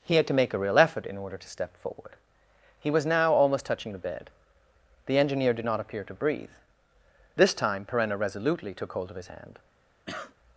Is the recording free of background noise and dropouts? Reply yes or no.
no